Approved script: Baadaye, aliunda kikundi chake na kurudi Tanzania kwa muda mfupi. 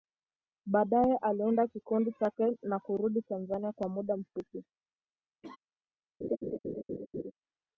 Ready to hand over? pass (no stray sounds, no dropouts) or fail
fail